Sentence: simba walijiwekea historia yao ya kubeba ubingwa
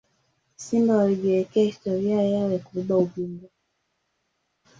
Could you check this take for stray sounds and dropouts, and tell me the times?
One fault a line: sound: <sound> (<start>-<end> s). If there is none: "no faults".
no faults